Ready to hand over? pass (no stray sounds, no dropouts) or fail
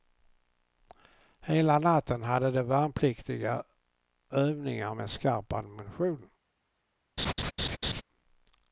fail